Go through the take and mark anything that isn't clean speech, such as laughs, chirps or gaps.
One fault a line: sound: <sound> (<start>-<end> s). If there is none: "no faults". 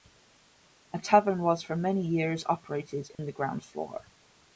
sound: dropout (3.1-3.2 s)